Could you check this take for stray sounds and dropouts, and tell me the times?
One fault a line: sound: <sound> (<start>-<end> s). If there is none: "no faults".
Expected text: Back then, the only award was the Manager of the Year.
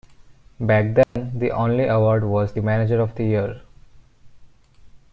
sound: dropout (1.0-1.2 s)